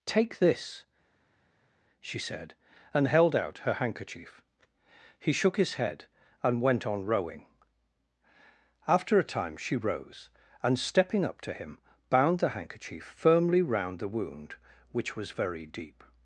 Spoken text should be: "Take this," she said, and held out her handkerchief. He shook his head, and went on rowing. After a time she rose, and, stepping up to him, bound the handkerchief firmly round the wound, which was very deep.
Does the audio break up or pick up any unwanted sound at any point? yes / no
no